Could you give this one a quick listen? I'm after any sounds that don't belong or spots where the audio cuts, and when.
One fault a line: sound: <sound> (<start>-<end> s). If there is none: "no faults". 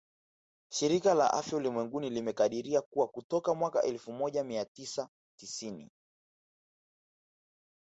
no faults